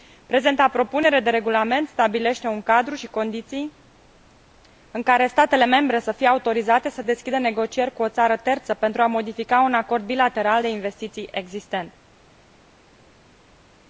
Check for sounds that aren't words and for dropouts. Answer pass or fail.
pass